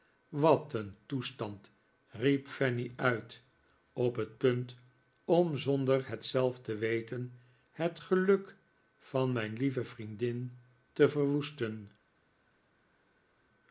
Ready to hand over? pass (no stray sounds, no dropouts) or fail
pass